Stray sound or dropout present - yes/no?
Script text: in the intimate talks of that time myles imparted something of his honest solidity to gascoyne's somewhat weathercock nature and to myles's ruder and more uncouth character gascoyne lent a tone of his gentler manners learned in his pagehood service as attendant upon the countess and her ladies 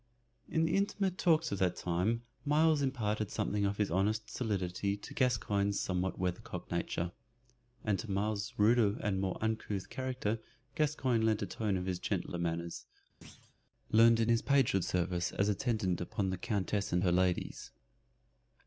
yes